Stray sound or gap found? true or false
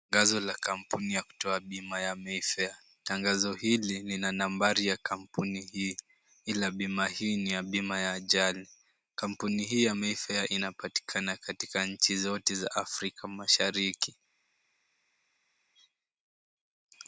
false